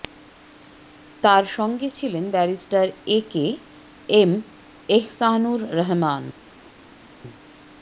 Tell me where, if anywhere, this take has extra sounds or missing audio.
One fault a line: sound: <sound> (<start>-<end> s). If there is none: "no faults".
no faults